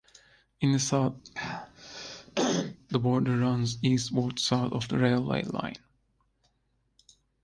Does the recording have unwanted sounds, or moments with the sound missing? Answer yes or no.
yes